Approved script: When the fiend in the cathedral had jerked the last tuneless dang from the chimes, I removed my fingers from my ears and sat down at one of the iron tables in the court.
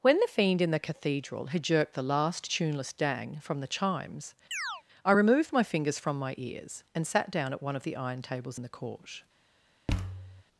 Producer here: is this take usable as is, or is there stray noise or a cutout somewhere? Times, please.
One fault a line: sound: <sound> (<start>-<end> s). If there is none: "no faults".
sound: chirp (4.5-4.8 s)
sound: thud (9.9-10.4 s)